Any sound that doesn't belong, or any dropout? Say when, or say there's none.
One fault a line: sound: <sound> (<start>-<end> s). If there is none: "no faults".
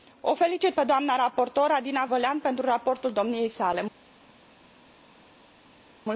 no faults